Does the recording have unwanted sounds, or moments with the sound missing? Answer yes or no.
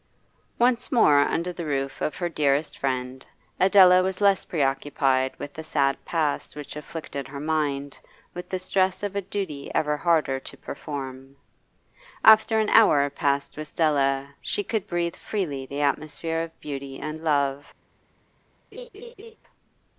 yes